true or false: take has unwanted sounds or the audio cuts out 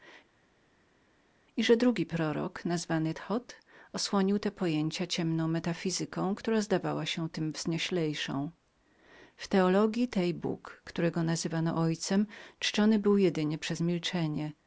false